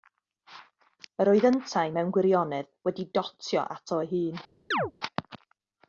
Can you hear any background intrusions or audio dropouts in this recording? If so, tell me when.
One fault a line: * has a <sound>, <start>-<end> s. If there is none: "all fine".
* has a chirp, 4.7-4.9 s